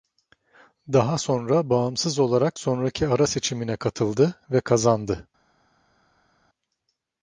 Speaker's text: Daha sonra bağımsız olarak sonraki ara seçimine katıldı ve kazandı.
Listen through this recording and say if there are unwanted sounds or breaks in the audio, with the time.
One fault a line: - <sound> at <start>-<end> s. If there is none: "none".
none